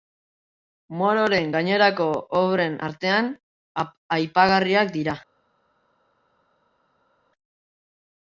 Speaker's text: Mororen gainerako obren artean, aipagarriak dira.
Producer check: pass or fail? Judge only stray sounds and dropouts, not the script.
pass